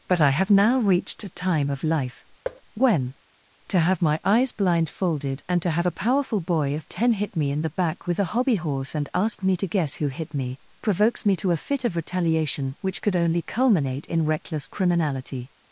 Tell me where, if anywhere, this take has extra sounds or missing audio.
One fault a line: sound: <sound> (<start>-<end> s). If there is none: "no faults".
sound: thud (2.4-2.6 s)